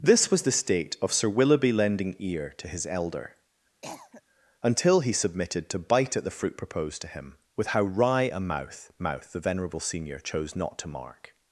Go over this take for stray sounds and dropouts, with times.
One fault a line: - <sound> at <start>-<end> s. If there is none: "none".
- cough at 3.8-4.2 s